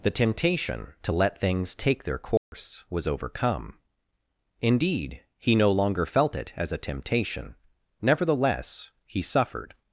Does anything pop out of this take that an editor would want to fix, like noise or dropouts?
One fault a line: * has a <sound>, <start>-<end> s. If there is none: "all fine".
* has a dropout, 2.4-2.5 s